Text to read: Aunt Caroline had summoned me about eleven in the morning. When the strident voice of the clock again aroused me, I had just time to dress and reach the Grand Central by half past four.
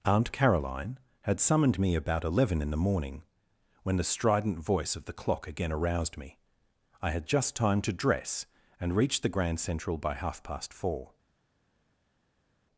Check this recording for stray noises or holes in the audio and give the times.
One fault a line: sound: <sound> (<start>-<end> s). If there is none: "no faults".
no faults